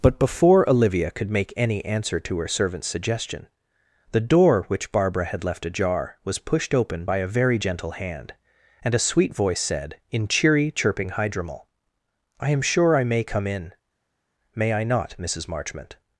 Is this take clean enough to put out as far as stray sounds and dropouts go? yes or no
yes